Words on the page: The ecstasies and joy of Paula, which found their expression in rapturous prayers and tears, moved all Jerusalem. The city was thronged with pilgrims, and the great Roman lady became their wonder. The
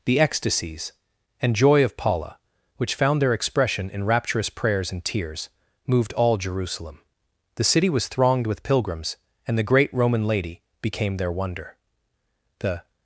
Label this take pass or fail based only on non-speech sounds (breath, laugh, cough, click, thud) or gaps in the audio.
pass